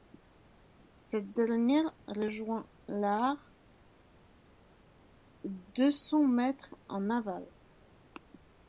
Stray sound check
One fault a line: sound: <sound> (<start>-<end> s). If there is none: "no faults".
no faults